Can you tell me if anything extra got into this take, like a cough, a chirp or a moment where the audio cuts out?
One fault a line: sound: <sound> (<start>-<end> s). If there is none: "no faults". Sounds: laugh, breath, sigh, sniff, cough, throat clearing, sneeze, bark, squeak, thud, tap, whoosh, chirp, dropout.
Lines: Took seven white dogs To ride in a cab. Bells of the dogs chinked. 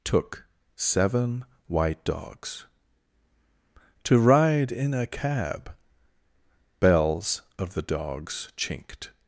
no faults